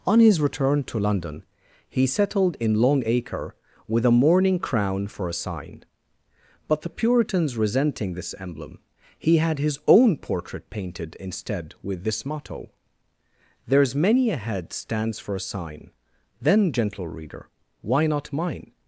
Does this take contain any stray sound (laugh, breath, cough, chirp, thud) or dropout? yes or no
no